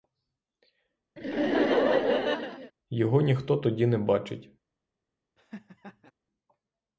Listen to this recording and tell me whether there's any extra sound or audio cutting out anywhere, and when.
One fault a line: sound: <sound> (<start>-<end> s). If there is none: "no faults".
sound: laugh (1.2-2.7 s)
sound: laugh (5.4-6.1 s)